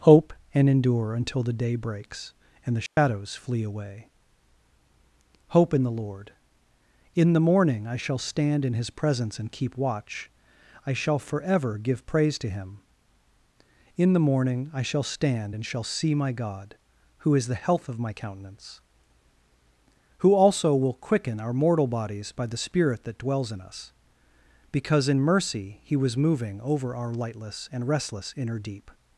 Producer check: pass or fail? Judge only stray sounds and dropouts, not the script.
fail